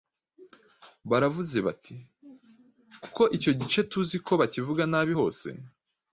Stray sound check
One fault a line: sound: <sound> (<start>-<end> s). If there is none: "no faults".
no faults